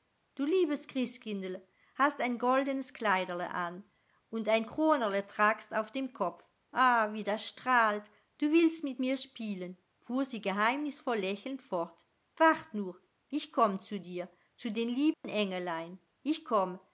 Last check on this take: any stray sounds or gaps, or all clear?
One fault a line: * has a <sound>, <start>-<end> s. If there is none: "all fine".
* has a dropout, 15.1-15.2 s